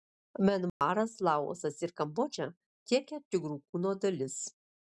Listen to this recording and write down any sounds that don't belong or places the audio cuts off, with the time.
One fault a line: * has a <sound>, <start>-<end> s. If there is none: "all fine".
* has a dropout, 0.7-0.8 s